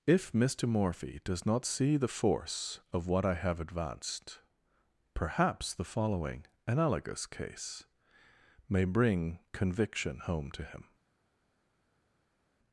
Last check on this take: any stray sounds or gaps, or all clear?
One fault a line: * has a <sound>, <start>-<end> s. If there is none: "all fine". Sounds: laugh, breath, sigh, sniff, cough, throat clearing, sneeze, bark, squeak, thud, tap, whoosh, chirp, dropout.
all fine